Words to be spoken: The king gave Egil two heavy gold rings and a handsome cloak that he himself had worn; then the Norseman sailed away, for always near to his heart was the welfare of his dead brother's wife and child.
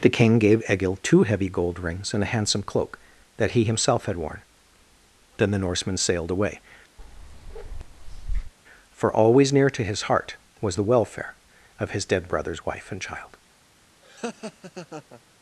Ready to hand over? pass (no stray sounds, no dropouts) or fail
fail